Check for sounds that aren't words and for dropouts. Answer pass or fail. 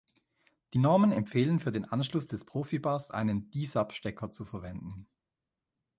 pass